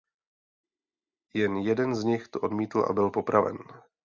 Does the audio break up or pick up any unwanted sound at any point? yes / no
no